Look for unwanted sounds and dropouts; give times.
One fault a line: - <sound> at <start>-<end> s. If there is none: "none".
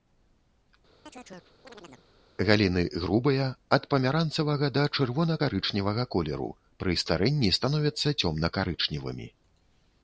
- chirp at 1.1-2.1 s